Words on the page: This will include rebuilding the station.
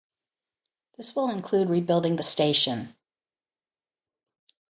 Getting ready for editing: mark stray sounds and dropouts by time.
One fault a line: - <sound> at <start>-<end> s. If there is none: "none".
none